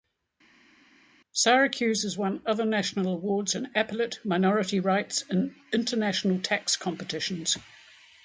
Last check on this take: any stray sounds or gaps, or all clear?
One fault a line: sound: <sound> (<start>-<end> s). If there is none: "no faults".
no faults